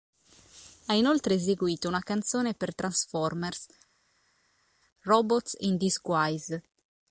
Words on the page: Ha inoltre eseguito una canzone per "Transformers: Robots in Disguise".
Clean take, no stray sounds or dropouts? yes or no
yes